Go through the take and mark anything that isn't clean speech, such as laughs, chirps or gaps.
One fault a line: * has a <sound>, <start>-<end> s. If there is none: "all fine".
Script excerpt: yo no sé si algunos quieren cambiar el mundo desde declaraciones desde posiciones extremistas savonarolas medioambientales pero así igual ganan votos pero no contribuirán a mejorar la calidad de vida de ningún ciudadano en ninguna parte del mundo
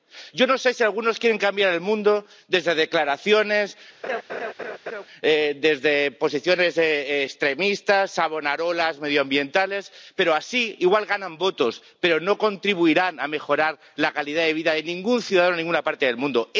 * has a laugh, 4.0-5.1 s